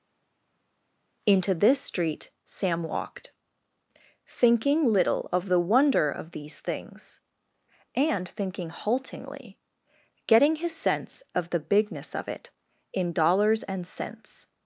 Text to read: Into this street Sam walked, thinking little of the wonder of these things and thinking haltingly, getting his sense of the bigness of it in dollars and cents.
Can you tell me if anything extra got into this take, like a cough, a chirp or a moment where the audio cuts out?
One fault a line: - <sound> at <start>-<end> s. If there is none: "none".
none